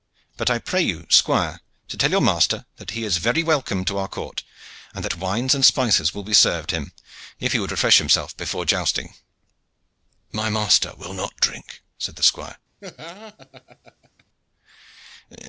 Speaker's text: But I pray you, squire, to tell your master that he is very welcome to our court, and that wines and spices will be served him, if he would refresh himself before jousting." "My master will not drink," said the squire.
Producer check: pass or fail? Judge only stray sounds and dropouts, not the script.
fail